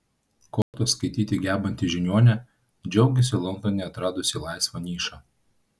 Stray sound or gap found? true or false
true